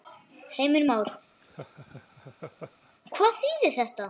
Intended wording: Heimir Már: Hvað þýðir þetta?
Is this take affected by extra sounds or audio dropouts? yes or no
yes